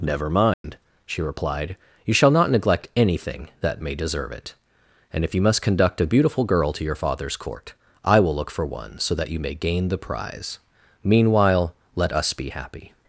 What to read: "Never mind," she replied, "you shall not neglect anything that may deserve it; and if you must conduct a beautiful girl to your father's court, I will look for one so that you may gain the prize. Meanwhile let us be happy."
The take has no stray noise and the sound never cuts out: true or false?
false